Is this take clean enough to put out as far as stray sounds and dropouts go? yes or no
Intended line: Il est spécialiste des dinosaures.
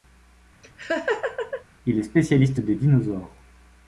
no